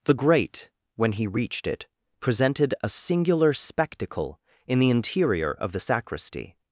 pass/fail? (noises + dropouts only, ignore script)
pass